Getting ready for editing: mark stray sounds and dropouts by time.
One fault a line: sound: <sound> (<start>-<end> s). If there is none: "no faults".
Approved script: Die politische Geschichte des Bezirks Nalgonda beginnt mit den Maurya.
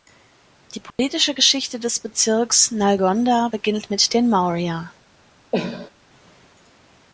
sound: dropout (0.9-1.0 s)
sound: cough (5.5-5.9 s)